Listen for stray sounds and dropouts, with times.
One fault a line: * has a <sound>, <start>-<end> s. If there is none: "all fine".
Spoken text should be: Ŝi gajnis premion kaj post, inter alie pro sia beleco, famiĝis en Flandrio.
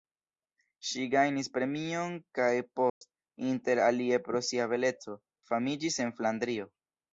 * has a dropout, 2.9-3.0 s